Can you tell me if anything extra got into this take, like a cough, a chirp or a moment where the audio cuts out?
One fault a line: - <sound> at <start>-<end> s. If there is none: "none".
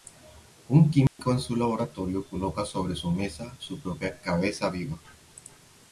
- dropout at 1.1-1.2 s